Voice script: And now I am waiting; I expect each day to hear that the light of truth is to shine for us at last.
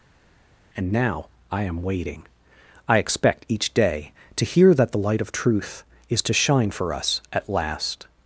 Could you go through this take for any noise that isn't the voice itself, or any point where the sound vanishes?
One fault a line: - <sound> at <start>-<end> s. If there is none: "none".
none